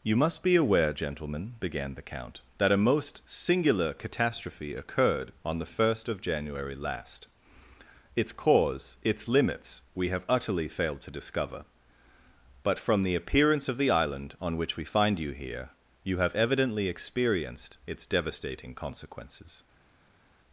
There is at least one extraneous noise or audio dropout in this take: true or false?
false